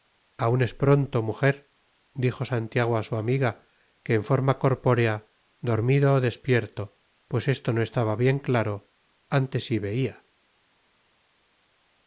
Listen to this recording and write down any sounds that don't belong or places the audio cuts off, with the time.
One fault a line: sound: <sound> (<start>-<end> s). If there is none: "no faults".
no faults